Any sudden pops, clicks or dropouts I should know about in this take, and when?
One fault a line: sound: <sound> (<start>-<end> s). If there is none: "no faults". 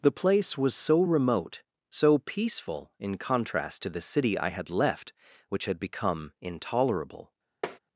sound: tap (7.6-7.8 s)